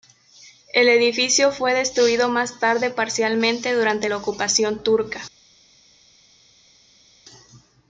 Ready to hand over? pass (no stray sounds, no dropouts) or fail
pass